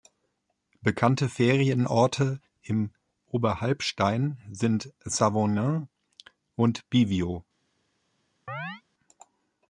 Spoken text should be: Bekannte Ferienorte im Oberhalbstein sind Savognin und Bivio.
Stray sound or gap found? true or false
true